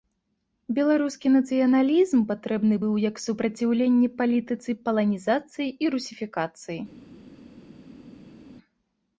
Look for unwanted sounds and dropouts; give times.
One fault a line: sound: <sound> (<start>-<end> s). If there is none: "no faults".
no faults